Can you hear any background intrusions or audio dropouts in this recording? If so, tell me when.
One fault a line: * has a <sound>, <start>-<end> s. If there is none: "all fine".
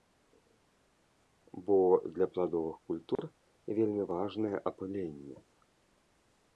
* has a dropout, 3.2-3.2 s